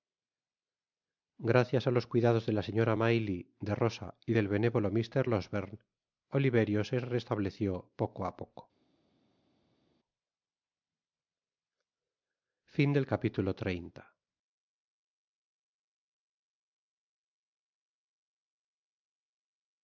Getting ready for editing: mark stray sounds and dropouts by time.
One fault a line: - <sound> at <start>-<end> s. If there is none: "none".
none